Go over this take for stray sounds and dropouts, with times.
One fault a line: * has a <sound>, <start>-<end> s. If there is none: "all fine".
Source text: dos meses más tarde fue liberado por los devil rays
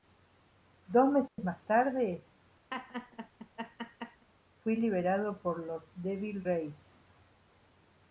* has a dropout, 1.3-1.4 s
* has a laugh, 2.7-4.3 s